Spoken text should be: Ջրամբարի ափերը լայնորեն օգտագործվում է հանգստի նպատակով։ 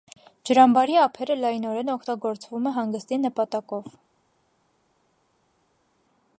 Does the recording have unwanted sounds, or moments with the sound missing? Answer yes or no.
no